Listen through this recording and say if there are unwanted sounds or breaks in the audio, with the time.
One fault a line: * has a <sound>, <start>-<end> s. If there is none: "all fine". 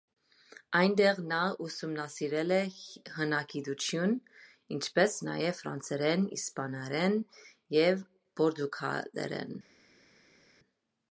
all fine